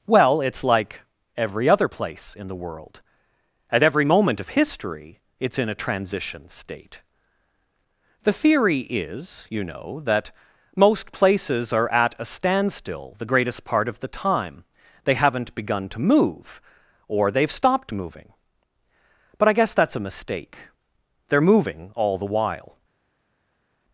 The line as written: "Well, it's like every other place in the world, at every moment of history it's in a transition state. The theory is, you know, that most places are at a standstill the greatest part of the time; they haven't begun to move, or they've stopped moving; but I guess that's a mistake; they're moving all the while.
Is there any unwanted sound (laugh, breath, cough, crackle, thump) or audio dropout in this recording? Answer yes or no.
no